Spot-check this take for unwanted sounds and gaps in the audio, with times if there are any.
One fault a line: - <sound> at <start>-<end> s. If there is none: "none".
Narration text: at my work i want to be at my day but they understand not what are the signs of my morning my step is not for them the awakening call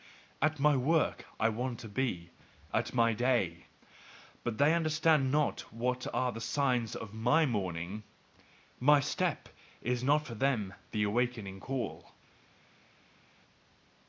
none